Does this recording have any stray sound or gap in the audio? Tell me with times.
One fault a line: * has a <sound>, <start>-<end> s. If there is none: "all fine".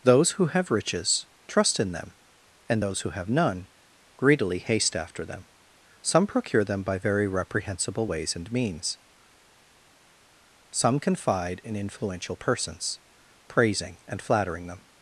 all fine